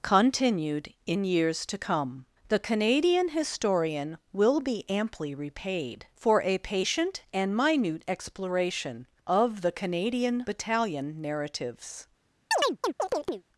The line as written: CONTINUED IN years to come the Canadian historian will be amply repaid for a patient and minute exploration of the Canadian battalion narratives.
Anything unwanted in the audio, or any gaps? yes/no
yes